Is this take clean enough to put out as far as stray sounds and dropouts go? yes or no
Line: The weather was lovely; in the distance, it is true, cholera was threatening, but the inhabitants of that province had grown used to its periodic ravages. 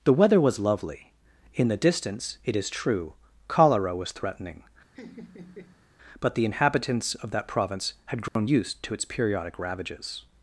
no